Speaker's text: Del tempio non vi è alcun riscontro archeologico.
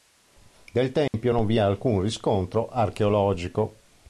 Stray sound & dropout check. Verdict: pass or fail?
fail